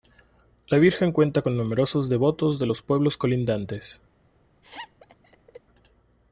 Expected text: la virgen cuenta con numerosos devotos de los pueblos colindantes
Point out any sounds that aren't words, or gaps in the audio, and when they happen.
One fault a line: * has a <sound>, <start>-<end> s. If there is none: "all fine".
* has a laugh, 4.6-5.6 s